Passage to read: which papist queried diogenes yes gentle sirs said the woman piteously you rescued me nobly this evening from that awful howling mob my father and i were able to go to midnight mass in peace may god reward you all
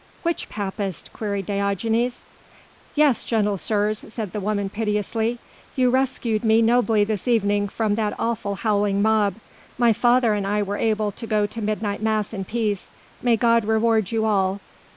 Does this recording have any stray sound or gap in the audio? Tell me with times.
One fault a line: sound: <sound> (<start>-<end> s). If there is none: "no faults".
no faults